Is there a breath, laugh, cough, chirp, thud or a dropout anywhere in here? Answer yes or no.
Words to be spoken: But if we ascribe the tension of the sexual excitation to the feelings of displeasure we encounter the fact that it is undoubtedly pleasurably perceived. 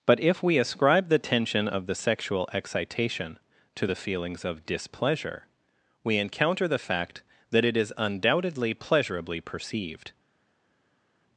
no